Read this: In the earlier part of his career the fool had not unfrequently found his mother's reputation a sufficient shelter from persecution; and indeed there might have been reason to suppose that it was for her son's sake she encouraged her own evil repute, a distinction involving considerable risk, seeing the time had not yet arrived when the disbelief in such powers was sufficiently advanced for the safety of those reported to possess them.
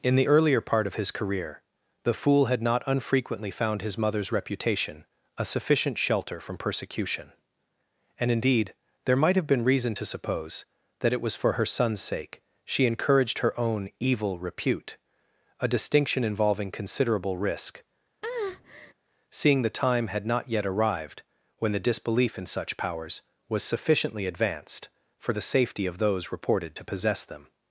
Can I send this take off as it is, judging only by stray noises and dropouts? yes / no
no